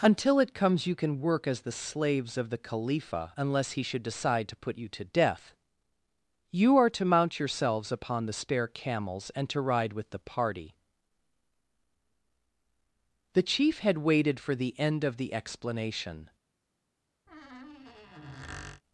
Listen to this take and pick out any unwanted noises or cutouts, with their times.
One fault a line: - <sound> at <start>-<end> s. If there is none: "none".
- squeak at 17.3-18.8 s